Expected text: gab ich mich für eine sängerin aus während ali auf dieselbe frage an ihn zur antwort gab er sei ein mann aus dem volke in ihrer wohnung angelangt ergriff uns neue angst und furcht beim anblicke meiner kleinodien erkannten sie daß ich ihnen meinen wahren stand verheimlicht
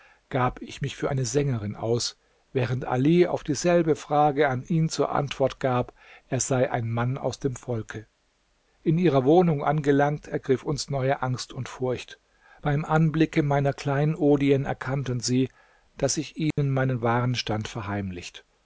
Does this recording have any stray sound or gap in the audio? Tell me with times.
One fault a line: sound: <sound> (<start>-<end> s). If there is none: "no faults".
sound: dropout (16.5-16.6 s)